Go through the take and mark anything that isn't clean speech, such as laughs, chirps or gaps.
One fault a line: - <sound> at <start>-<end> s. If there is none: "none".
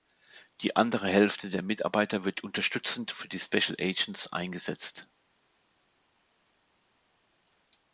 none